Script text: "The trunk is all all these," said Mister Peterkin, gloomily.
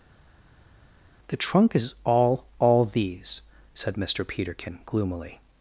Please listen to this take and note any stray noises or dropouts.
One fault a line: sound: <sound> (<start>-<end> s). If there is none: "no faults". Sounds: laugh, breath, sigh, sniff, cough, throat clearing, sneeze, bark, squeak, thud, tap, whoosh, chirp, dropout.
no faults